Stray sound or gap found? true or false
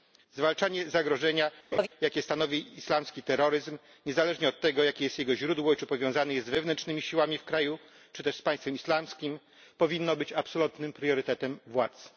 true